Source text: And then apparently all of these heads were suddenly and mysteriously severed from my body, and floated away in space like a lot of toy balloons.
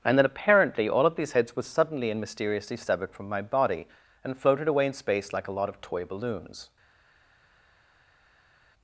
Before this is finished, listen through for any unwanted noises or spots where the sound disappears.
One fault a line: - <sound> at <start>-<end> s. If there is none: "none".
none